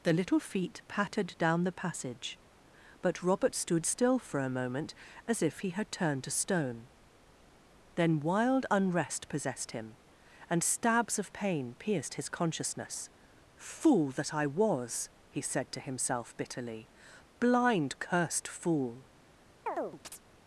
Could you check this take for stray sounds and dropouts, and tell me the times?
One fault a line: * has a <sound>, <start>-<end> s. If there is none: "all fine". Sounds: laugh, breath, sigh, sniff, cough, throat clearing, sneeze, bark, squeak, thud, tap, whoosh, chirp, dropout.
* has a chirp, 19.7-20.2 s